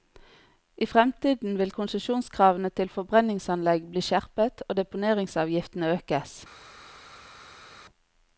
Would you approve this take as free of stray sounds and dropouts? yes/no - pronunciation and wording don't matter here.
yes